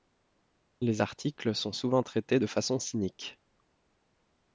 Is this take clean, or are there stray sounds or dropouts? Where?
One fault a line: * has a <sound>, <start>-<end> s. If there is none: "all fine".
all fine